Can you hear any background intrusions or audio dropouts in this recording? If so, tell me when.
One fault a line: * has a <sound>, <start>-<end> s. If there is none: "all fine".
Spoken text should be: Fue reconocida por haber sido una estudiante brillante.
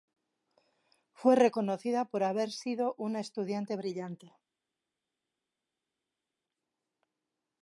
all fine